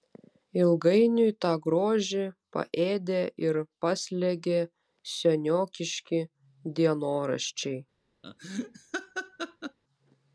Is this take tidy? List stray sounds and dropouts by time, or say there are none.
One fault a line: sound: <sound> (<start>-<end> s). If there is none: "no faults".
sound: laugh (8.2-9.8 s)